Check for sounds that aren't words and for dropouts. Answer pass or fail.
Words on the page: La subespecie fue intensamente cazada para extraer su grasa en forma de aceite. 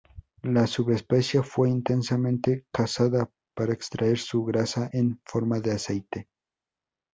pass